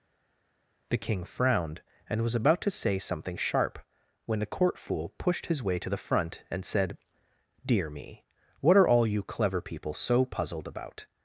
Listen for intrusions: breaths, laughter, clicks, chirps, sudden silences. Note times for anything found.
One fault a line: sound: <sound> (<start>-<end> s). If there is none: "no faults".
no faults